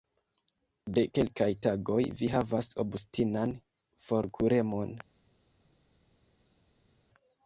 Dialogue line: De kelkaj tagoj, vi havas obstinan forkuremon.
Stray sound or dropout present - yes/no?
no